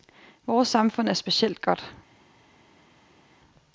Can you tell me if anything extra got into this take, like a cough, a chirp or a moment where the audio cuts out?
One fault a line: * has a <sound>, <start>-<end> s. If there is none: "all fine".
all fine